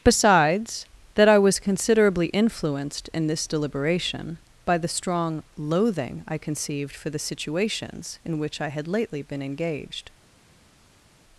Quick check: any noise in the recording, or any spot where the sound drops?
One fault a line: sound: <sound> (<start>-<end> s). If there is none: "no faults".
no faults